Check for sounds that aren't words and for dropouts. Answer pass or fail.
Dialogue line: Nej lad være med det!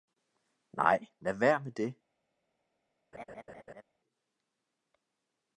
fail